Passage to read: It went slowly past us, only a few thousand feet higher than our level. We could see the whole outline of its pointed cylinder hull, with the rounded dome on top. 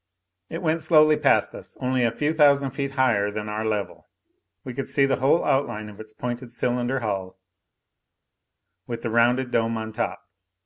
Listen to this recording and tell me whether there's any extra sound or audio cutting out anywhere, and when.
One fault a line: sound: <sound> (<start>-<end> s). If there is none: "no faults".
no faults